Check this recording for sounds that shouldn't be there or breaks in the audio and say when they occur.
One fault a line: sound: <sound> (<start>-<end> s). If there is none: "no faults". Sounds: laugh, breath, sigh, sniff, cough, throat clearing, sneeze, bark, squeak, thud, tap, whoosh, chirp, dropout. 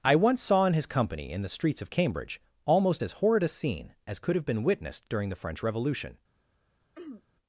sound: throat clearing (6.9-7.2 s)